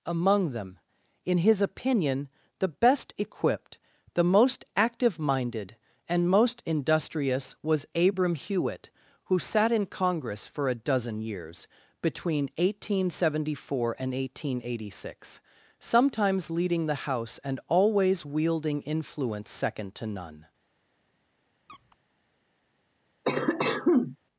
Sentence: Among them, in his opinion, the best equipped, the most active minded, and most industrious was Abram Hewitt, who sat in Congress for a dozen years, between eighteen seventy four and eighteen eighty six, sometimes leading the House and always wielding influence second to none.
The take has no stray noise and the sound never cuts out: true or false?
false